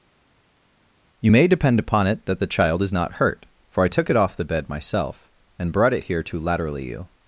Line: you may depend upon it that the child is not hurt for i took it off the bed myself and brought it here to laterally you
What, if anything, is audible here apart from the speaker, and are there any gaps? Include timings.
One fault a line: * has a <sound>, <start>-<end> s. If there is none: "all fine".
all fine